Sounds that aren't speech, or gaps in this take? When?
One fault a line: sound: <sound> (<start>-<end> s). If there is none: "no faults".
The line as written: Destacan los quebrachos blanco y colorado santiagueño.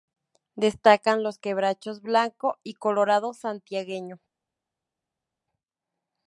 no faults